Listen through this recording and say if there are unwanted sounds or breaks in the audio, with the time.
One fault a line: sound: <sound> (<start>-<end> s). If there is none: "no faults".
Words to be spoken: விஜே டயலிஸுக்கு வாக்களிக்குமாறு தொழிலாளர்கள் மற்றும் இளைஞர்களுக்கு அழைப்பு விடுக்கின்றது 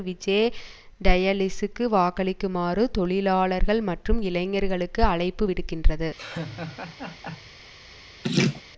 sound: laugh (6.2-7.5 s)
sound: laugh (8.2-8.6 s)